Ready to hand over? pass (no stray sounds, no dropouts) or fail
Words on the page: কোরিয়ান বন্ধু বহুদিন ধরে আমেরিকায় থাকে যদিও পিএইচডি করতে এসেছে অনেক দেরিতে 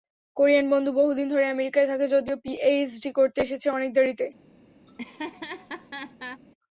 fail